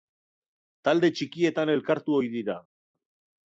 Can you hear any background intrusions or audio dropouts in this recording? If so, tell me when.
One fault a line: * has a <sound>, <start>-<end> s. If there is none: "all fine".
all fine